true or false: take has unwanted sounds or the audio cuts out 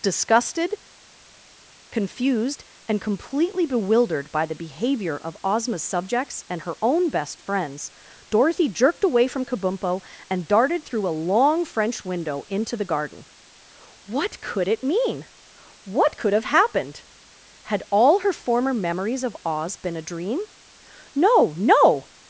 false